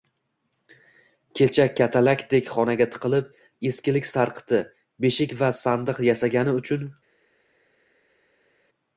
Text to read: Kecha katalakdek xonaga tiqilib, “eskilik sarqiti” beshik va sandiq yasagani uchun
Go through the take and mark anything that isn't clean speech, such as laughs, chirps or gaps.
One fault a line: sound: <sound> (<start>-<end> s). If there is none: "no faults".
no faults